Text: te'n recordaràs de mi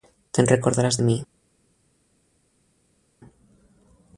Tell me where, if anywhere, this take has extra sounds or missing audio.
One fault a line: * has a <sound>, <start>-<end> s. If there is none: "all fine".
all fine